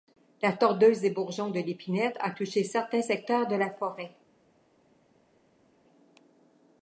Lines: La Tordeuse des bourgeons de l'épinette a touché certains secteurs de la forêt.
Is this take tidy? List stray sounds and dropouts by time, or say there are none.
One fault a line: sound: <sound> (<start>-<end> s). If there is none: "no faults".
no faults